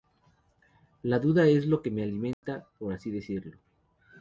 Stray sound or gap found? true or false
true